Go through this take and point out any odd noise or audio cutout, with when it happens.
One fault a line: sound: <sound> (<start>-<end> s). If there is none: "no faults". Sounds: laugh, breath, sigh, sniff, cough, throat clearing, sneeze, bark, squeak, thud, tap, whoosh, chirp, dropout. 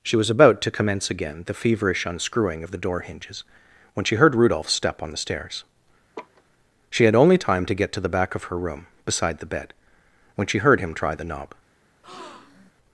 sound: laugh (6.1-6.4 s)
sound: breath (12.0-12.7 s)